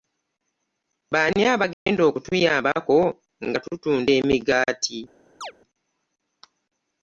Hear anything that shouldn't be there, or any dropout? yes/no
yes